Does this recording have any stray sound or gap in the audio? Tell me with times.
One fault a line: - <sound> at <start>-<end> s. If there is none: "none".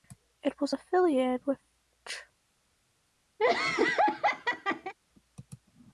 - laugh at 3.4-4.9 s